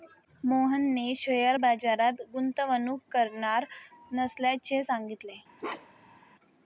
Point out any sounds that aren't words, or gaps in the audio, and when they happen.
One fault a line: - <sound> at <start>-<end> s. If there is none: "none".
- bark at 5.6-6.2 s